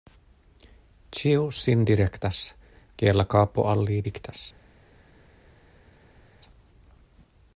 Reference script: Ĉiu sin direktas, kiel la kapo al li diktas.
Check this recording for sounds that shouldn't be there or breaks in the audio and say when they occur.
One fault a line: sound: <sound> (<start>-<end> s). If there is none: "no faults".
no faults